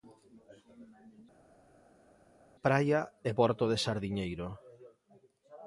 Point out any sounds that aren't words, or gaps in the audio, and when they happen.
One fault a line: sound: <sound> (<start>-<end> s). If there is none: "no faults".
no faults